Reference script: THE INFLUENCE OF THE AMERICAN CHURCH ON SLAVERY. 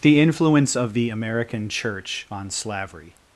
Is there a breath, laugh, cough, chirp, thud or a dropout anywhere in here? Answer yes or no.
no